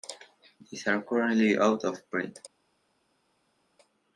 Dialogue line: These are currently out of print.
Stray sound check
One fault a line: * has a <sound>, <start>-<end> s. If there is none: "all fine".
all fine